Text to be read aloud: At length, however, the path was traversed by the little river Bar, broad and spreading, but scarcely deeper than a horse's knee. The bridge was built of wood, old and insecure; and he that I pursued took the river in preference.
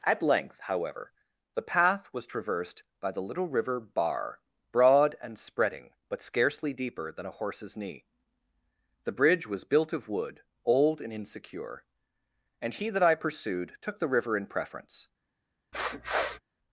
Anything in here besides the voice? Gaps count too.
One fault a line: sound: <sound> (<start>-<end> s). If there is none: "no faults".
sound: sniff (15.7-16.4 s)